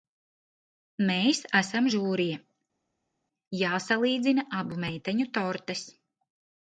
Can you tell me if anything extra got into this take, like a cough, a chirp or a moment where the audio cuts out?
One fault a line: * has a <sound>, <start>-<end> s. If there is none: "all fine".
all fine